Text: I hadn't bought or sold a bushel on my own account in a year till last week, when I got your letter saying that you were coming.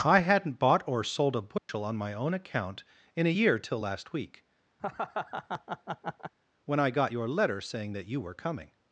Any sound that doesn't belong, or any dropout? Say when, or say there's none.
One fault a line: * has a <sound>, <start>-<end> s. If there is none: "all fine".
* has a dropout, 1.6-1.7 s
* has a laugh, 4.8-6.3 s